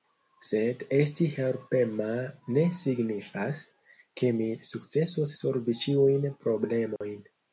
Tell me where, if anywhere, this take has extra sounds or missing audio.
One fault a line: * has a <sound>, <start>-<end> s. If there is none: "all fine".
* has a dropout, 7.0-7.0 s